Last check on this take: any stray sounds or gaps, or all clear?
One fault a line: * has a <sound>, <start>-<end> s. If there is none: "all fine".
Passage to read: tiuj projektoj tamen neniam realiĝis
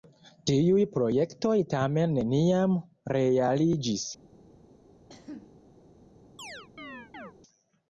* has a cough, 5.1-5.6 s
* has a chirp, 6.4-7.3 s